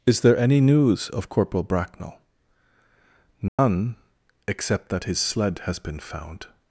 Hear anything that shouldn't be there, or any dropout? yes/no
yes